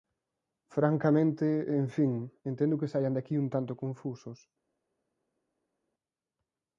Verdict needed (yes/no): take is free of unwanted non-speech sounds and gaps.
yes